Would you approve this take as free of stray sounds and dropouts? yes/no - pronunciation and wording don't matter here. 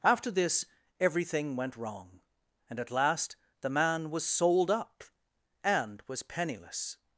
yes